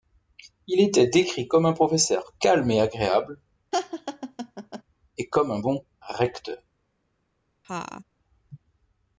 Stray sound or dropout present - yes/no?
yes